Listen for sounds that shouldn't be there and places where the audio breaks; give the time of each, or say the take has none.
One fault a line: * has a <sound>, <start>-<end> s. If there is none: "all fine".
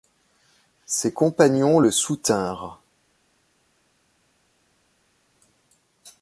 all fine